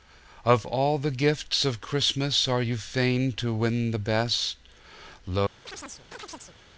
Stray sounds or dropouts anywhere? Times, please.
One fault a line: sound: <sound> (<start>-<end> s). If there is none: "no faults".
sound: chirp (5.7-6.6 s)